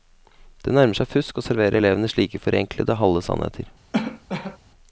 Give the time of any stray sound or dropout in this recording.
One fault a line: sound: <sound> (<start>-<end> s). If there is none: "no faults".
sound: cough (3.9-4.6 s)